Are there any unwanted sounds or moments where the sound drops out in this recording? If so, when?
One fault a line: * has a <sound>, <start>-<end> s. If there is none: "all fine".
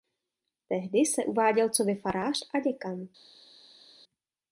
all fine